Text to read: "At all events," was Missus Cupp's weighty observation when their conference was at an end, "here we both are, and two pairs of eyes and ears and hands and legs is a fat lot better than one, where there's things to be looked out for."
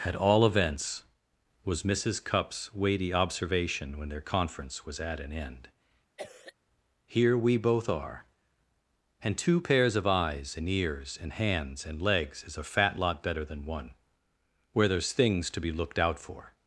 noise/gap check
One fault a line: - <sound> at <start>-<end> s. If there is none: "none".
- cough at 6.2-6.5 s